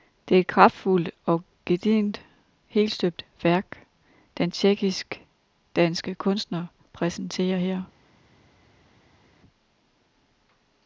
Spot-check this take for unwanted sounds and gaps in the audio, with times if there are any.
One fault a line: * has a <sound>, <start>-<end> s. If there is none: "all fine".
all fine